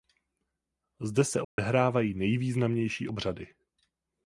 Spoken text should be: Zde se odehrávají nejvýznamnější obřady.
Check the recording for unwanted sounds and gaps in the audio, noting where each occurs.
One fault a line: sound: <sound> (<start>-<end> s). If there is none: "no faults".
sound: dropout (1.4-1.6 s)